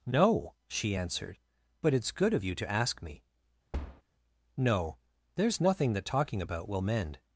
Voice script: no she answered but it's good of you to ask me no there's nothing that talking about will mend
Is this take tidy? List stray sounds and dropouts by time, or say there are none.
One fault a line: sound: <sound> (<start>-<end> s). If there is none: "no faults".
sound: thud (3.7-4.0 s)